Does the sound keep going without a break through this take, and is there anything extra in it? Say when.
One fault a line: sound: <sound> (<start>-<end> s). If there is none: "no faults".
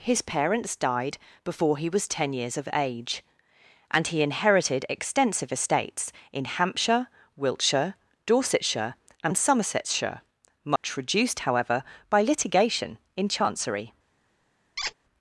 sound: dropout (10.8-10.8 s)
sound: squeak (14.8-14.9 s)